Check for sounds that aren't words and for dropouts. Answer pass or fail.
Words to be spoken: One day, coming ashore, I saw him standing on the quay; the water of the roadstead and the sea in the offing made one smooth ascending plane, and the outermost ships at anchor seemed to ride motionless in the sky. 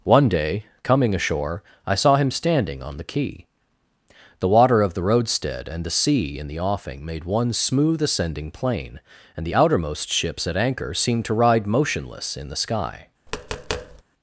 fail